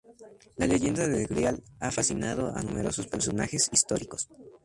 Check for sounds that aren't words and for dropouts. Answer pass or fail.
pass